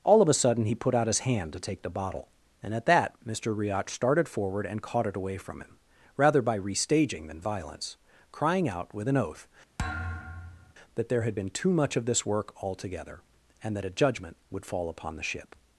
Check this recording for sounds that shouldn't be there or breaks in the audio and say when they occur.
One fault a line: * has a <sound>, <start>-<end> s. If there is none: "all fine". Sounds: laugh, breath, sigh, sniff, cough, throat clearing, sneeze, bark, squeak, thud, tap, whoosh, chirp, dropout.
* has a thud, 9.8-10.7 s